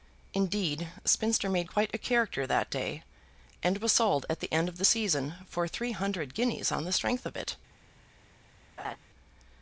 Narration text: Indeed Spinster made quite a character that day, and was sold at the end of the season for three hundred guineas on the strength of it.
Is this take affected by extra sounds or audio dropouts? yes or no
yes